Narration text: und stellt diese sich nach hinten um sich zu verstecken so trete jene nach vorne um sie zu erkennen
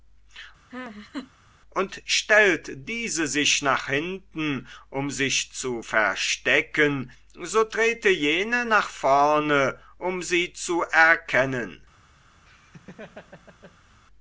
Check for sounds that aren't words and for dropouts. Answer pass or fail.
fail